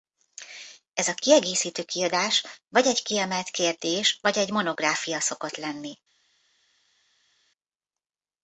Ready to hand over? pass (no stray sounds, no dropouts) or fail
pass